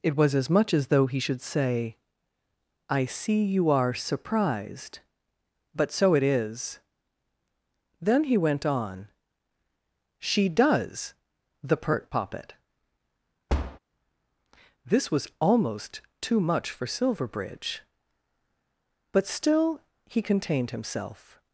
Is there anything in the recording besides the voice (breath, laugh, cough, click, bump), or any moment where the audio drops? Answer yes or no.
yes